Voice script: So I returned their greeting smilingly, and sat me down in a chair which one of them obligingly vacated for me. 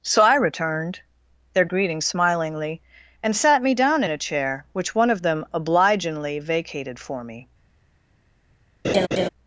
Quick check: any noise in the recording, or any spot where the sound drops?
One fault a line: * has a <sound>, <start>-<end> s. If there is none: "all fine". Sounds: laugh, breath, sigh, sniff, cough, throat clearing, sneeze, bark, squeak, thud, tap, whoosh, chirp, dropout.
* has a laugh, 8.8-9.3 s